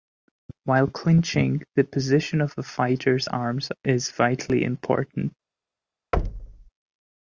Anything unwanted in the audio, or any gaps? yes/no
yes